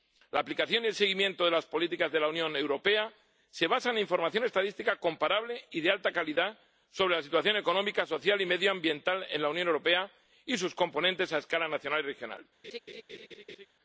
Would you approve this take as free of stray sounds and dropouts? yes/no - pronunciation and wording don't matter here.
no